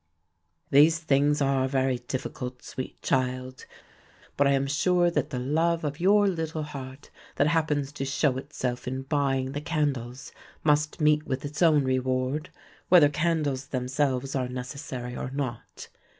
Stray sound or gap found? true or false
false